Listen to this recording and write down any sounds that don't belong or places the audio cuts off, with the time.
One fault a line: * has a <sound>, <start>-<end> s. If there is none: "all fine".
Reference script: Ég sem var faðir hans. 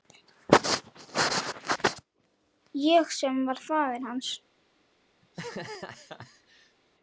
* has a laugh, 5.2-6.8 s